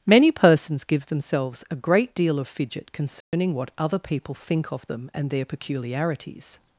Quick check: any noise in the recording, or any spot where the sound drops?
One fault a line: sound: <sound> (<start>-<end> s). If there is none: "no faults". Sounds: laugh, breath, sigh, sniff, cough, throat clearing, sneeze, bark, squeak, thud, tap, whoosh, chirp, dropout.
sound: dropout (3.2-3.3 s)